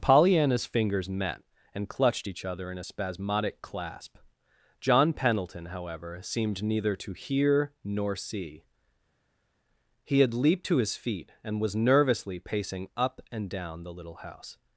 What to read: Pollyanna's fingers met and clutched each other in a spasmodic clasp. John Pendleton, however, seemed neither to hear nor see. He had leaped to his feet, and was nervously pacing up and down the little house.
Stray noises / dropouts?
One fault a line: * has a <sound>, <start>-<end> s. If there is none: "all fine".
all fine